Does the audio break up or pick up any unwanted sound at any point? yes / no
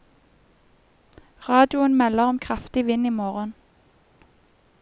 no